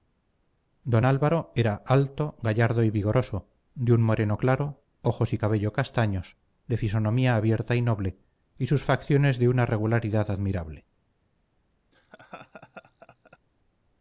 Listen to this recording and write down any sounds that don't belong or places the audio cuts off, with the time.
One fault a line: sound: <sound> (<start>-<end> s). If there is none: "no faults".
sound: laugh (11.9-13.4 s)